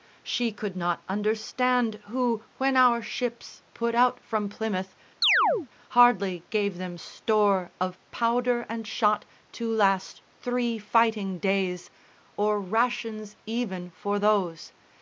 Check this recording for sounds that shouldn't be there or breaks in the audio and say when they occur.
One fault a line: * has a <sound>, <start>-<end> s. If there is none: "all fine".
* has a chirp, 5.2-5.7 s